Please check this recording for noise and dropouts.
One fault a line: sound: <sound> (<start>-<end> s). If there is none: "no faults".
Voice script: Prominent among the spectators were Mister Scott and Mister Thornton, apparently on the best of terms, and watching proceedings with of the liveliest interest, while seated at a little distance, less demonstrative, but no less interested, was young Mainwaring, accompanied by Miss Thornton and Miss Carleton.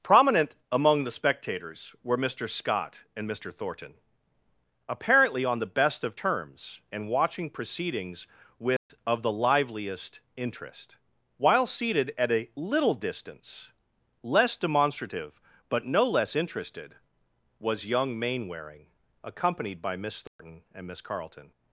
sound: dropout (8.8-8.9 s)
sound: dropout (20.3-20.4 s)